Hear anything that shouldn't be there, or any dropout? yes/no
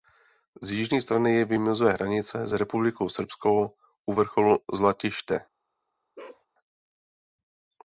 yes